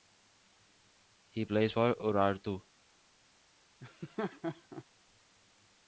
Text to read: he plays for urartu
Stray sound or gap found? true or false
true